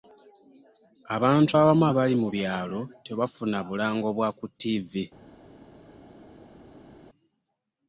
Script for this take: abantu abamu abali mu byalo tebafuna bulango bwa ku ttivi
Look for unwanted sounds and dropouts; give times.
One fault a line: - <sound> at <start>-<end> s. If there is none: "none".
none